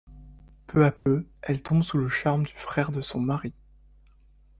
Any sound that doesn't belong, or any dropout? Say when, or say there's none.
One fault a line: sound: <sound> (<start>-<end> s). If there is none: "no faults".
sound: dropout (1.0-1.1 s)